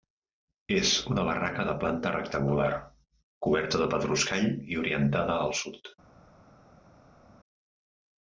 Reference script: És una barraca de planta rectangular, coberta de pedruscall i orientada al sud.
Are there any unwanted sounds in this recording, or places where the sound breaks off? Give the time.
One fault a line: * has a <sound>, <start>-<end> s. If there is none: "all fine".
all fine